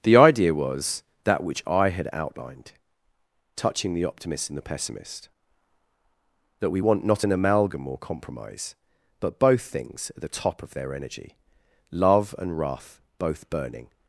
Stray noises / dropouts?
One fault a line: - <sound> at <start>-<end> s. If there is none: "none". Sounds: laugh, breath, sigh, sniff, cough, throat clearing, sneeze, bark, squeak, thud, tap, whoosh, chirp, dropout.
none